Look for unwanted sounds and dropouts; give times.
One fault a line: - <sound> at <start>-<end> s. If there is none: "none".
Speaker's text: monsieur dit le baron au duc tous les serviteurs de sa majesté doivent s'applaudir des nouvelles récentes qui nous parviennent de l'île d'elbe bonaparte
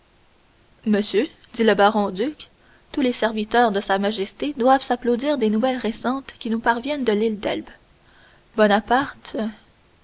none